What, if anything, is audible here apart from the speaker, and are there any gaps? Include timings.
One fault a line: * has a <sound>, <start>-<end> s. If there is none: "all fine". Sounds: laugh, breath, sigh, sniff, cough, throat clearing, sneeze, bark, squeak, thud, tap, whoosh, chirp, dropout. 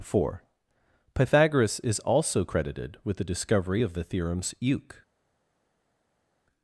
all fine